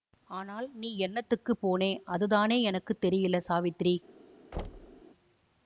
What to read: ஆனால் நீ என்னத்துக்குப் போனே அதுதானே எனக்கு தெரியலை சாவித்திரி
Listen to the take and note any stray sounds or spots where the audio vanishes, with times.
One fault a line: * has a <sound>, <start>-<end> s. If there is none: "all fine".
* has a thud, 4.5-5.0 s